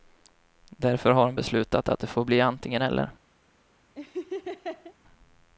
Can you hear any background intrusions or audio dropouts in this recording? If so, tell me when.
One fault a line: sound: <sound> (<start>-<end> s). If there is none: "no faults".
sound: laugh (4.0-4.9 s)